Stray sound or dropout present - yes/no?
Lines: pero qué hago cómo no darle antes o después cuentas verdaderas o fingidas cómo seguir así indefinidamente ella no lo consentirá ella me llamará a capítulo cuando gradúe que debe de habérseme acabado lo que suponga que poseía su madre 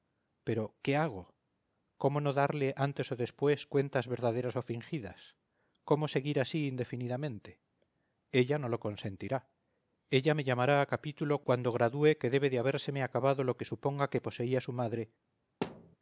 yes